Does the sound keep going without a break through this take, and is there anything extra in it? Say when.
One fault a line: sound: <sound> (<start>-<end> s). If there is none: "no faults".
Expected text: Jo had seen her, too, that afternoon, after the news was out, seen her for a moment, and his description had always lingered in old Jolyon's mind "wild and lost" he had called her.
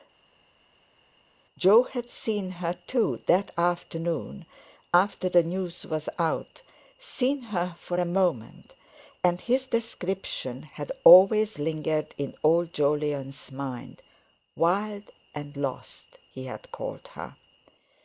no faults